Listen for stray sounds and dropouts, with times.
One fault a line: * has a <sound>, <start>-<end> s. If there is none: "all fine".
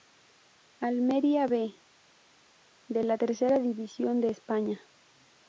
all fine